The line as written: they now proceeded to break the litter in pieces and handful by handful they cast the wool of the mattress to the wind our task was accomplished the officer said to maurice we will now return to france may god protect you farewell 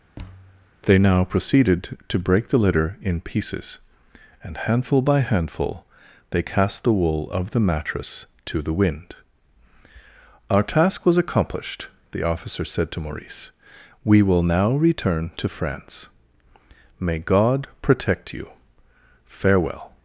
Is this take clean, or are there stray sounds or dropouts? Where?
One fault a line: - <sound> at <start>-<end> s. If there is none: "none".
- thud at 0.2-0.7 s